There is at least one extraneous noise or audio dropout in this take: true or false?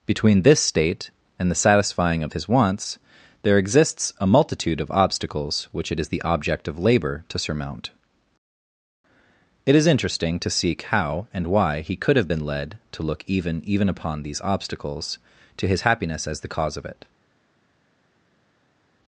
false